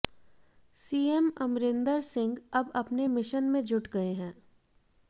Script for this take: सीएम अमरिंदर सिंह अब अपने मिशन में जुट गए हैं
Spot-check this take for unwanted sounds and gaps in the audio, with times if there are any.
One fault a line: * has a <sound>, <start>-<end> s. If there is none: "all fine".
all fine